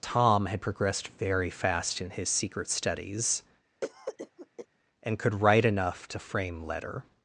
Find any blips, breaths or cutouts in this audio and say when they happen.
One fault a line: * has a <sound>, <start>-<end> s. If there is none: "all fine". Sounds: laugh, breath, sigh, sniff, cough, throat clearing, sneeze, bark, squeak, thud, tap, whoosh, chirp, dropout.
* has a cough, 3.8-4.7 s